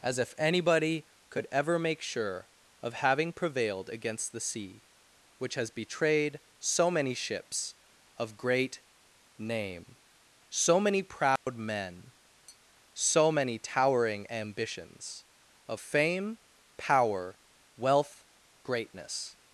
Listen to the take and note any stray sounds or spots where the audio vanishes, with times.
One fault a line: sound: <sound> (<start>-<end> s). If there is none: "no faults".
sound: dropout (11.4-11.5 s)
sound: tap (12.5-12.6 s)